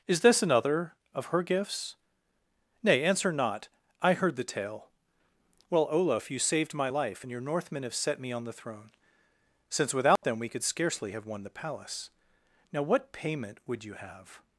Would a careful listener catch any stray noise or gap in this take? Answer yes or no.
yes